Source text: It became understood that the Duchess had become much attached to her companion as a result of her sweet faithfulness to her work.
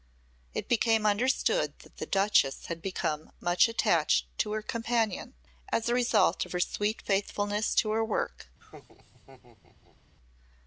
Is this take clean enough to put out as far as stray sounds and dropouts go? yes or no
no